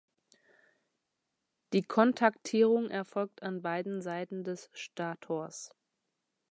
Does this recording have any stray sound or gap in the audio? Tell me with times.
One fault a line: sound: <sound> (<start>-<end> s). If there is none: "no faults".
no faults